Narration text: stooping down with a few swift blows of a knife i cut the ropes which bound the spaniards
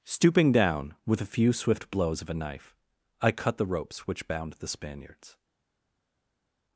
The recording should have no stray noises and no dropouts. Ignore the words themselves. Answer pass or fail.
pass